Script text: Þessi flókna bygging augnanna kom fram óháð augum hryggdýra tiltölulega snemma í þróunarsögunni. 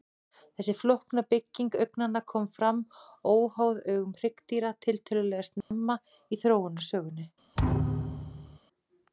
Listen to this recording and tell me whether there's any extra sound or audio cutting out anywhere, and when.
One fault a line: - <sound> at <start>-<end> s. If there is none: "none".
- dropout at 5.6-5.7 s
- thud at 7.6-8.6 s